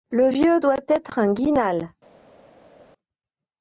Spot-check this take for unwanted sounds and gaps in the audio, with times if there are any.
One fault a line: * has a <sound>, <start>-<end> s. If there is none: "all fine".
all fine